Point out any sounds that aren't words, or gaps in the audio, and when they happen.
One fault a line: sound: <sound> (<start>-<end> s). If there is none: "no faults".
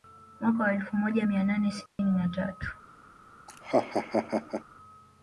sound: dropout (1.9-2.0 s)
sound: laugh (3.5-4.6 s)